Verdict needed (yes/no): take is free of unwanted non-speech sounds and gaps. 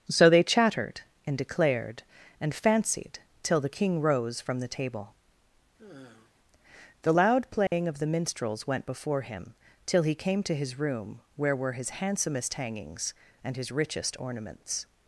no